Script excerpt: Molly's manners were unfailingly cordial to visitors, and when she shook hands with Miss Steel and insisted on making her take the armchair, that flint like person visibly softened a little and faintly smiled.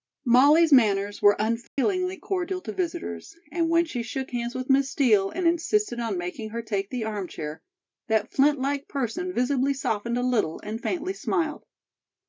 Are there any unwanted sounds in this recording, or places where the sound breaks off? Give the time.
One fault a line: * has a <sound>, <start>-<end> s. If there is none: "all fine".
* has a dropout, 1.7-1.8 s